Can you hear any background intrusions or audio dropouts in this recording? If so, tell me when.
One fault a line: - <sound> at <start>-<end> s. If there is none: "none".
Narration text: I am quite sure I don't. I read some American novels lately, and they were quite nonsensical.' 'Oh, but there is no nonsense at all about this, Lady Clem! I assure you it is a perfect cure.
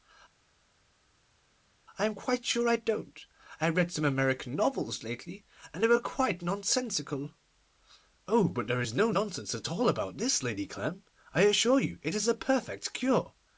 none